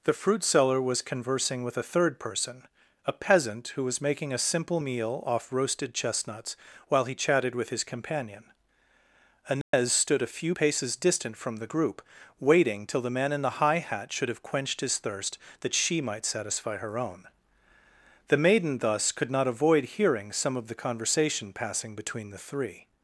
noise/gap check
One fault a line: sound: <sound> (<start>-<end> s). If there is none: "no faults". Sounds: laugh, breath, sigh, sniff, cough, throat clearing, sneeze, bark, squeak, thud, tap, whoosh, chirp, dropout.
sound: dropout (9.6-9.7 s)